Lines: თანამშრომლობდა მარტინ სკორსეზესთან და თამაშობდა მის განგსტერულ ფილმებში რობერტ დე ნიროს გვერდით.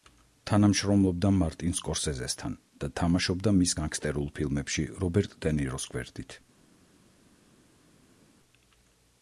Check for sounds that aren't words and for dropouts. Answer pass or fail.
pass